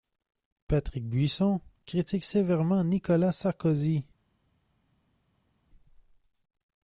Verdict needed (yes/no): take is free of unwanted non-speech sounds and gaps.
yes